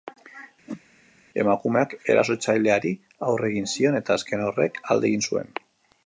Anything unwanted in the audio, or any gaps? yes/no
yes